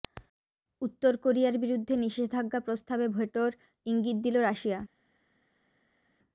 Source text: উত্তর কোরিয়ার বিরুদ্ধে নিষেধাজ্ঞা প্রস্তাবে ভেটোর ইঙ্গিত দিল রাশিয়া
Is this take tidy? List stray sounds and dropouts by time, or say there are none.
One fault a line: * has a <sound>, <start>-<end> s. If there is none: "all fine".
all fine